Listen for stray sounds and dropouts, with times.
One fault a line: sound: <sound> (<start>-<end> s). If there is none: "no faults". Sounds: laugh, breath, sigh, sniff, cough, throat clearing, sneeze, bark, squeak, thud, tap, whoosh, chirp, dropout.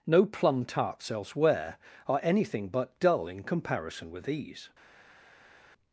no faults